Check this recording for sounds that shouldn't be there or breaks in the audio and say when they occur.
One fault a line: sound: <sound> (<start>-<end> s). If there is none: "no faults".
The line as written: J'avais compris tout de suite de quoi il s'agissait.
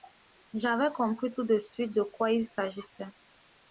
no faults